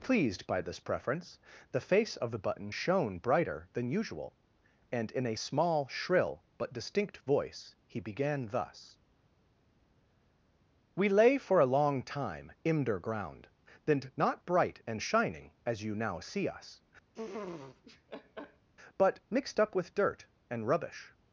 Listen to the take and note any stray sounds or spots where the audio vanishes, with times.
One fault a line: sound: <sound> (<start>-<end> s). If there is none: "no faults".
sound: laugh (17.1-18.7 s)